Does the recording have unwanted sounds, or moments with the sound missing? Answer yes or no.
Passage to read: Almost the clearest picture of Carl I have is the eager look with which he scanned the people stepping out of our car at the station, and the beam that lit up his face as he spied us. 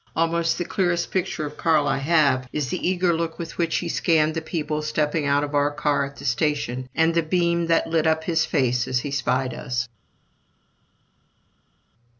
no